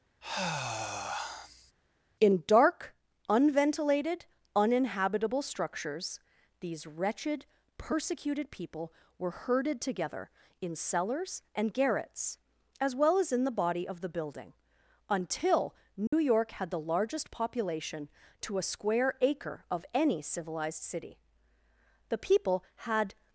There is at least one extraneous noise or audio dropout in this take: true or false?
true